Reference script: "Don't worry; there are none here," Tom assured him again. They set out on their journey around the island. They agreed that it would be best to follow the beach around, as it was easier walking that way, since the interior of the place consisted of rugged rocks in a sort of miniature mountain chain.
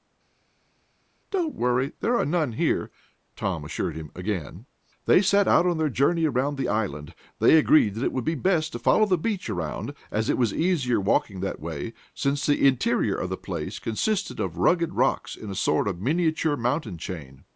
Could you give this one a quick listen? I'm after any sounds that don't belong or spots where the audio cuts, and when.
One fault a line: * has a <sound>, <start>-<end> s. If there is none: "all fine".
all fine